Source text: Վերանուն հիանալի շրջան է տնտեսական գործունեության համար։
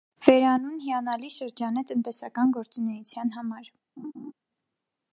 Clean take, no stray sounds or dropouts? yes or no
no